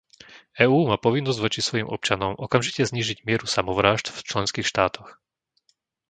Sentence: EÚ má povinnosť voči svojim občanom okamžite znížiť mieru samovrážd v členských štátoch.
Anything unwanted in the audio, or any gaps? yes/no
no